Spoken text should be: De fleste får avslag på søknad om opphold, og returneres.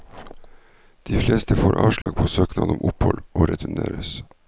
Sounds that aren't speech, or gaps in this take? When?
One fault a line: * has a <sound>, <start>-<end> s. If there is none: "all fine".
* has a dropout, 2.0-2.1 s